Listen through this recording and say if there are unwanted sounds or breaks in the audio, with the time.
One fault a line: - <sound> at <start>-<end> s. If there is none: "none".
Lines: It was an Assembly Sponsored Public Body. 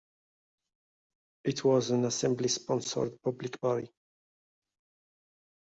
none